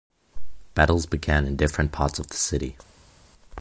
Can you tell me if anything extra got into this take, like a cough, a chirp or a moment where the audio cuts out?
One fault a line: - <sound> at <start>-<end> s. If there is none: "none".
none